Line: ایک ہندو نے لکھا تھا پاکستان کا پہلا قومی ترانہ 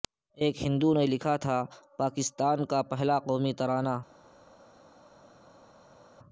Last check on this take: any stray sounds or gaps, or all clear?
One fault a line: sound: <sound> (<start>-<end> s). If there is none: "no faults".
no faults